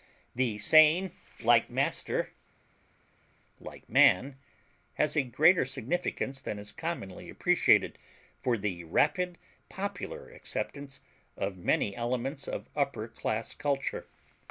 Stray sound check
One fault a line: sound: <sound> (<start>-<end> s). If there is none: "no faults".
no faults